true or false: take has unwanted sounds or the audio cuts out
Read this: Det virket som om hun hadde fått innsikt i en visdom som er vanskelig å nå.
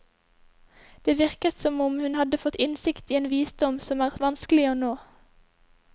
false